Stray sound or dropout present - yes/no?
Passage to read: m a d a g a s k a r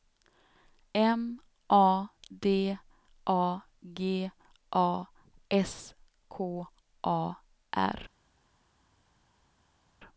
no